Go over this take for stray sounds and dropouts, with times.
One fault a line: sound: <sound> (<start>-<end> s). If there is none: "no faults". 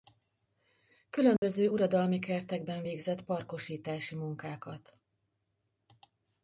sound: dropout (1.4-1.4 s)